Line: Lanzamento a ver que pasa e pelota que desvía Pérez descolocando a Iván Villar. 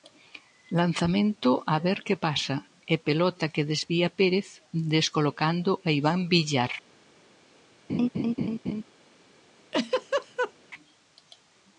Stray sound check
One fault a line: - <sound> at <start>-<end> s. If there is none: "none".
- laugh at 7.9-8.8 s
- laugh at 9.7-10.5 s